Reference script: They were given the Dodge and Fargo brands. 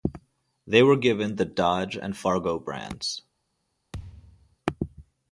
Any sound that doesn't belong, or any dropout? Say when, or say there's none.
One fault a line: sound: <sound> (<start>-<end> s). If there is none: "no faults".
sound: thud (3.9-4.6 s)